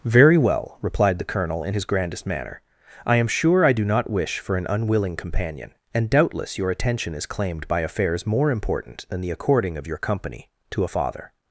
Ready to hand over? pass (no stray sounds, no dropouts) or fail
pass